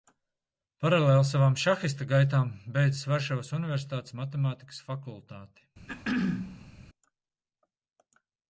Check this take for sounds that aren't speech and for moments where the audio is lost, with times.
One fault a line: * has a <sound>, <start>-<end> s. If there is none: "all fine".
* has a throat clearing, 5.9-6.7 s